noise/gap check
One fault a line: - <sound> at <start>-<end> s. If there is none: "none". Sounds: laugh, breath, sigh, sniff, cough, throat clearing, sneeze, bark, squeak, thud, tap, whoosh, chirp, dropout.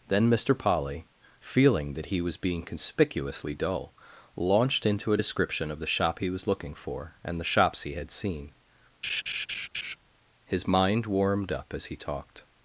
- laugh at 9.0-10.0 s